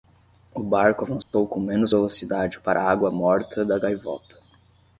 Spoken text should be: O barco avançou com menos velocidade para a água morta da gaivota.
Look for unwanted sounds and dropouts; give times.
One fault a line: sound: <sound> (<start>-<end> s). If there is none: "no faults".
sound: dropout (1.2-1.3 s)